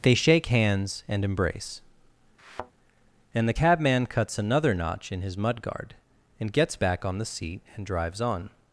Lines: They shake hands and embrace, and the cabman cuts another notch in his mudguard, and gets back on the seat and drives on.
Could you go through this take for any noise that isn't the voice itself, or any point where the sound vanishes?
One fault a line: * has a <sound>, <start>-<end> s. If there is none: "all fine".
* has a thud, 2.4-2.7 s